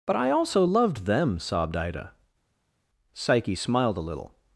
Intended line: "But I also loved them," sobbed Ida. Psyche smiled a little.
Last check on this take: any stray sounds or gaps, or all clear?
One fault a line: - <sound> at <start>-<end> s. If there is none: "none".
none